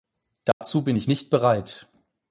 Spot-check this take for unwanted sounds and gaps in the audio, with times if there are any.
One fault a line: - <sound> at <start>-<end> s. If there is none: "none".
- dropout at 0.5-0.6 s